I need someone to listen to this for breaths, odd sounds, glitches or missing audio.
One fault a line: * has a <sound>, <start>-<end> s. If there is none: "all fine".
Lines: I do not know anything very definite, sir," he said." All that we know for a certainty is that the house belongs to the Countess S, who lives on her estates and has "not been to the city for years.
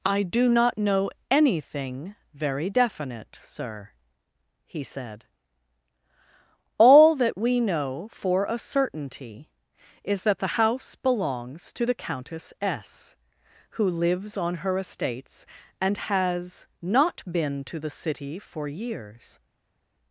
all fine